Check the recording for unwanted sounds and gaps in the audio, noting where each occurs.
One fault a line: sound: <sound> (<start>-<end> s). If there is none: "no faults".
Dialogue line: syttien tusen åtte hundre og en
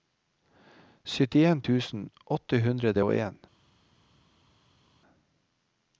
no faults